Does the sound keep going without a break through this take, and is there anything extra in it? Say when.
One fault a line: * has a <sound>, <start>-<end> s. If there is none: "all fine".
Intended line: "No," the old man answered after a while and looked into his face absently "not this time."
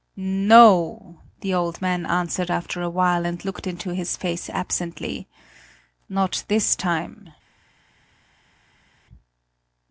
all fine